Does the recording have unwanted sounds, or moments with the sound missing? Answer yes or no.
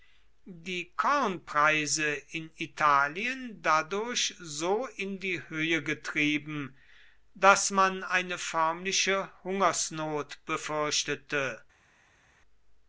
no